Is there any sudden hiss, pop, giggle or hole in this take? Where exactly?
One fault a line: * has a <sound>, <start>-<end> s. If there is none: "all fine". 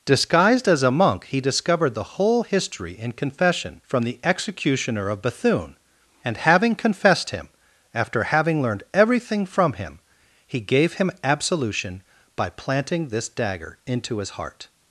all fine